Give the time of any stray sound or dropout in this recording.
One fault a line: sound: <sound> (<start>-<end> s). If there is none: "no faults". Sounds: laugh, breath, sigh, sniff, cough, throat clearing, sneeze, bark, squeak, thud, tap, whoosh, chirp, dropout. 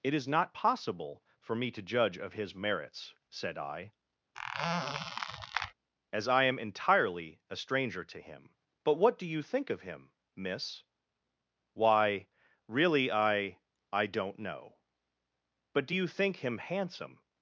sound: squeak (4.3-5.7 s)